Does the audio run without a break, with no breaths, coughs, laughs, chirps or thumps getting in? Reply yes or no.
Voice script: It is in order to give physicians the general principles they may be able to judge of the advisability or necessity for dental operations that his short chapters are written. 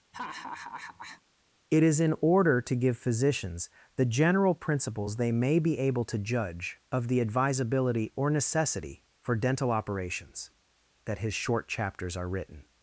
no